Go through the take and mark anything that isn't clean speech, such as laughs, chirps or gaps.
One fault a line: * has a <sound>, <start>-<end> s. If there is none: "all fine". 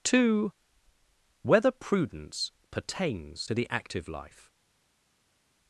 all fine